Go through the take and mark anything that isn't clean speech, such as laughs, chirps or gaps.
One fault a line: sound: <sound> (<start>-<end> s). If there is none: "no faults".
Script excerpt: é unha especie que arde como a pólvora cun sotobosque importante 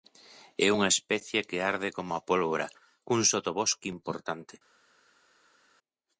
no faults